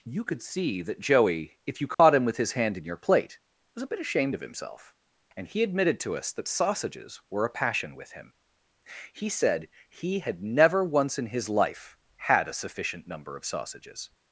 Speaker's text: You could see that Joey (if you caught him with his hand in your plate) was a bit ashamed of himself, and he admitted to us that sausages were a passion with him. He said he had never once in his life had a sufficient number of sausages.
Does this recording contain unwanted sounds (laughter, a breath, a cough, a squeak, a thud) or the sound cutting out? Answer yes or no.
yes